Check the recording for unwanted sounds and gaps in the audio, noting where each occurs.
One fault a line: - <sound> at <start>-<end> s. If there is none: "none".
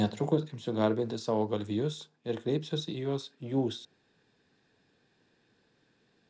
none